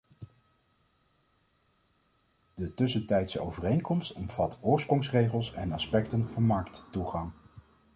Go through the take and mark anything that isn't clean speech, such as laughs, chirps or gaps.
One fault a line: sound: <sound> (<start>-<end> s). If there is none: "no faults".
no faults